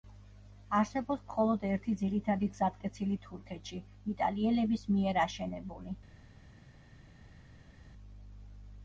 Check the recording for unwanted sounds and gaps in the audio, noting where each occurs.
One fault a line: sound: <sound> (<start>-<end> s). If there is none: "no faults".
no faults